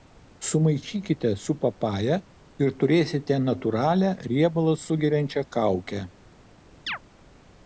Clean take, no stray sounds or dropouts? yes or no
no